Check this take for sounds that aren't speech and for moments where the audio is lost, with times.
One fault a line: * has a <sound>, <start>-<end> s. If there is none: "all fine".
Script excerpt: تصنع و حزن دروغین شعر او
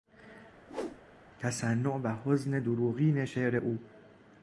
* has a whoosh, 0.7-1.0 s